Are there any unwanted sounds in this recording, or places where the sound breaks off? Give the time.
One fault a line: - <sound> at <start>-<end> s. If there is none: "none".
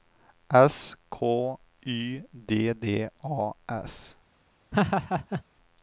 - laugh at 4.7-5.4 s